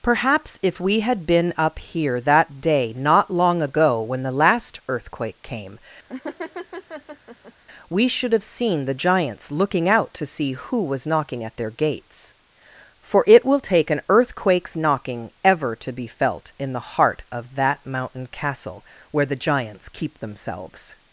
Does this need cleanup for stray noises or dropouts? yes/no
yes